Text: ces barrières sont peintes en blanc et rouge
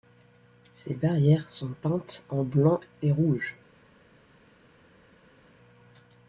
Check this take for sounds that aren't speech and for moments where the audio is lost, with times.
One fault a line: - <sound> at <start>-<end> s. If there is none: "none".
none